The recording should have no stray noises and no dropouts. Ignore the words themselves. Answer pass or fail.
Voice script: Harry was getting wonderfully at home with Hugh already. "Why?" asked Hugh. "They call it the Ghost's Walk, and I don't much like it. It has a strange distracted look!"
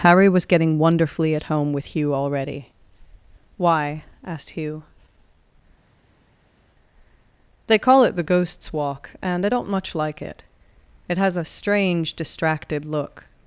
pass